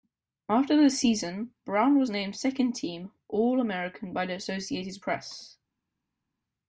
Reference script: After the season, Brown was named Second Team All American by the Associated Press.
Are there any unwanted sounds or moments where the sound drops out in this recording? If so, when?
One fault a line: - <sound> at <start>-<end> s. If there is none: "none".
none